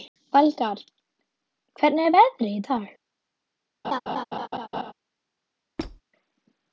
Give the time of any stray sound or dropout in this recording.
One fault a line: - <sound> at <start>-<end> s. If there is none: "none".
- laugh at 3.8-4.9 s
- squeak at 5.8-6.0 s